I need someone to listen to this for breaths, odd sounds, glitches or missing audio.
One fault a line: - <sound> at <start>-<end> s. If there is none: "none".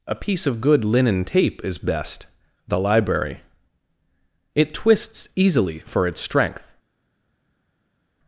none